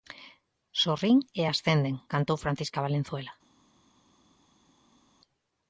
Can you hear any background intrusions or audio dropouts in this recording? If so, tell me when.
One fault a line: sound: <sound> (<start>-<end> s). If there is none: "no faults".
no faults